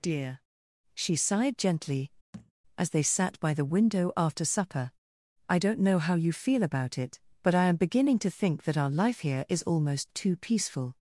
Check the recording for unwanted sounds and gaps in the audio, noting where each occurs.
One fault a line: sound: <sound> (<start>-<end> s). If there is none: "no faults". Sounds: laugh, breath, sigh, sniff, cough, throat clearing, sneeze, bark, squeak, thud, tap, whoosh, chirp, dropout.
sound: thud (2.3-2.5 s)